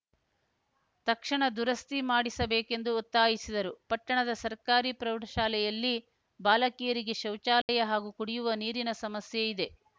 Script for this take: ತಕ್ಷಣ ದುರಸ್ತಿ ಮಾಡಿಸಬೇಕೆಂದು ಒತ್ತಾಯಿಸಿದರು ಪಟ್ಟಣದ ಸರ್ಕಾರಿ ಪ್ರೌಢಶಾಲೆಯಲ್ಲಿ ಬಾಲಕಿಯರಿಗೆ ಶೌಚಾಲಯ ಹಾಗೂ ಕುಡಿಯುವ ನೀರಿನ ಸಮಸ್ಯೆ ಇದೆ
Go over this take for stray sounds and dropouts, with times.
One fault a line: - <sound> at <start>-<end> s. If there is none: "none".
- dropout at 7.6-7.7 s